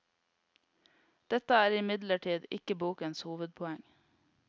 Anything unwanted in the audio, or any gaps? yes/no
no